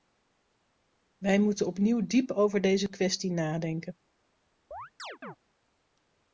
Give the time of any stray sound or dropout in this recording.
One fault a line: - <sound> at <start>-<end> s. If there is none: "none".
- chirp at 4.7-5.4 s